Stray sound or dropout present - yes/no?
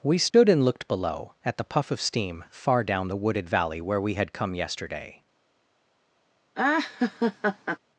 yes